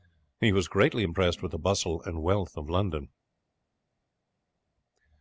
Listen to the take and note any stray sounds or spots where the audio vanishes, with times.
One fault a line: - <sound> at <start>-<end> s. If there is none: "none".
none